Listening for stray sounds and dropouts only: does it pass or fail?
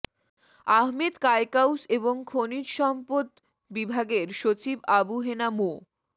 pass